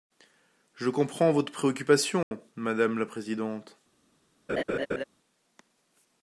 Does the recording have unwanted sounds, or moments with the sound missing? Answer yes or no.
yes